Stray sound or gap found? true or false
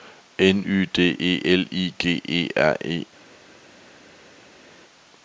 false